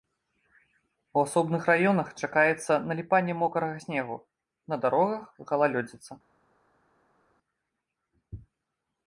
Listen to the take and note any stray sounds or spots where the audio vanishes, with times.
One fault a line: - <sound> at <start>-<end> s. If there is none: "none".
none